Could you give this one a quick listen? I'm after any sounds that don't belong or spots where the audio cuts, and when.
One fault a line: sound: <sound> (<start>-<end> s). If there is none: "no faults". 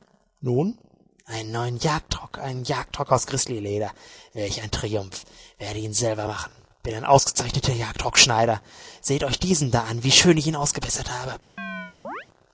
sound: chirp (11.6-12.3 s)